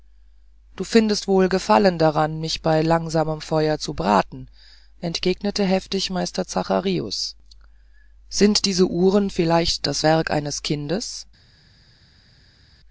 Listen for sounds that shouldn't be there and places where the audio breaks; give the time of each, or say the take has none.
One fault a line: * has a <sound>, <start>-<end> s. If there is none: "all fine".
all fine